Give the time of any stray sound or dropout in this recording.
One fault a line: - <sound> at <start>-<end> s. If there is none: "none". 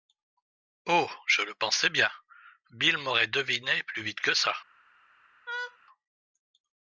- laugh at 5.5-5.8 s